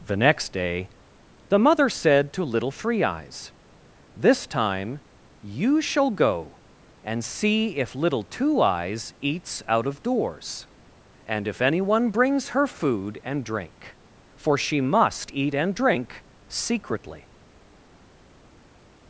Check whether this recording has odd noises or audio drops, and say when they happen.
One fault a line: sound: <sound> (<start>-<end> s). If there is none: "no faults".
no faults